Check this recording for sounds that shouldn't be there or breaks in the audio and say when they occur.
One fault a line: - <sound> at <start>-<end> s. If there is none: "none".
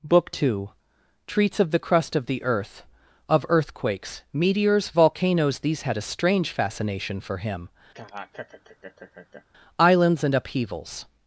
- laugh at 7.9-9.4 s